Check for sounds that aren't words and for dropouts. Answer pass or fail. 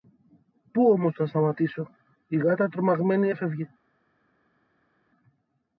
pass